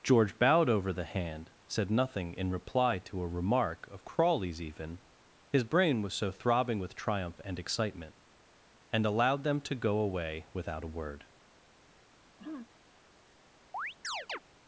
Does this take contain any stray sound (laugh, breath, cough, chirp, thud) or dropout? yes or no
yes